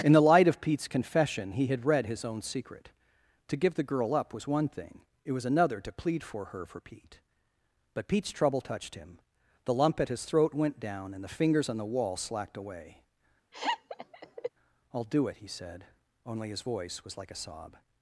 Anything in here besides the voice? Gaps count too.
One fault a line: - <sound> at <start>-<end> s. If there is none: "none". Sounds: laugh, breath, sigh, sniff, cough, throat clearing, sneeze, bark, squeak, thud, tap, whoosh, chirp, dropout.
- laugh at 13.5-14.5 s